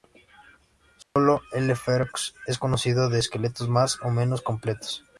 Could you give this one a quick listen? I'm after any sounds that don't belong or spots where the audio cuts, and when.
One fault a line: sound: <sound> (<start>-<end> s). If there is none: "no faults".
sound: dropout (1.0-1.2 s)